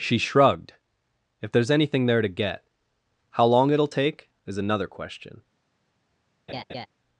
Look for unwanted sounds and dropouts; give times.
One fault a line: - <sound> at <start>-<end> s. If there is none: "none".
- laugh at 6.5-6.9 s